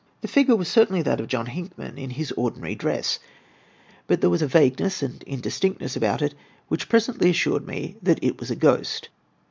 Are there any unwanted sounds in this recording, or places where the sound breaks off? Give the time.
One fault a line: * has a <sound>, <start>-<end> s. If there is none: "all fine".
all fine